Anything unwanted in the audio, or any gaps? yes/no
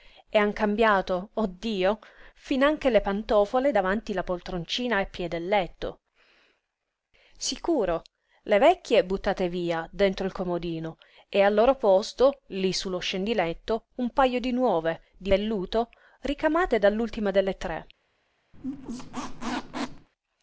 yes